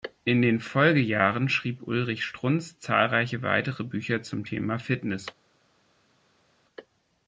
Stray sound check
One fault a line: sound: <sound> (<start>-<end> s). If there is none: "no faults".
no faults